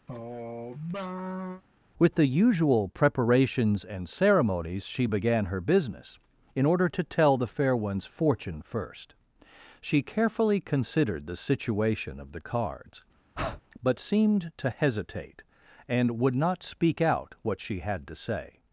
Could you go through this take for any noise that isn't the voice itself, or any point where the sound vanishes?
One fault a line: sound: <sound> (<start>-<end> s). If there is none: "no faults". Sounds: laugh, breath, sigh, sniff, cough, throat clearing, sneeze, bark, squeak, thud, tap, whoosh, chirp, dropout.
sound: sigh (0.1-1.6 s)
sound: breath (13.4-13.6 s)